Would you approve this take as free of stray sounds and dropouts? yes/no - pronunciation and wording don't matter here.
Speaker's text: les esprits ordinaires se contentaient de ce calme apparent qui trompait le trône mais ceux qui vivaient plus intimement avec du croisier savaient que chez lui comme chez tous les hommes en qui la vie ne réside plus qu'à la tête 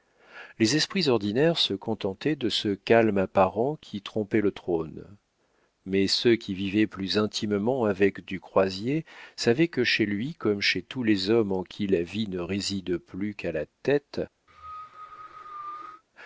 no